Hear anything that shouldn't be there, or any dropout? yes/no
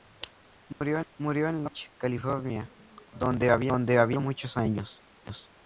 yes